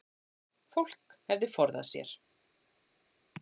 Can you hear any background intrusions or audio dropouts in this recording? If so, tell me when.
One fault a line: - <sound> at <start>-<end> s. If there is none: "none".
none